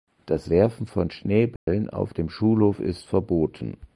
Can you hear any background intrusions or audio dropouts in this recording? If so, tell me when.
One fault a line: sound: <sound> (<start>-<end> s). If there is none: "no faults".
sound: dropout (1.6-1.7 s)